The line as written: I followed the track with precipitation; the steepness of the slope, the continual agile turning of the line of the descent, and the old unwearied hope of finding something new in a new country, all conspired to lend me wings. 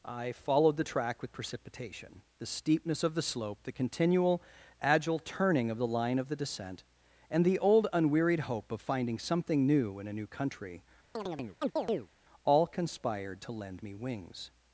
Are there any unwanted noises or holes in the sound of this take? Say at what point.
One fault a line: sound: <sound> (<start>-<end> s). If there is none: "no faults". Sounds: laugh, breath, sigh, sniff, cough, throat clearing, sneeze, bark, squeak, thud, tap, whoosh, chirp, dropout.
sound: chirp (11.1-12.1 s)